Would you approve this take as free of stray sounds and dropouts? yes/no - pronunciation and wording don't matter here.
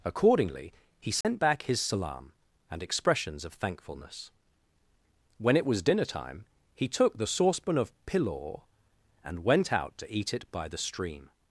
no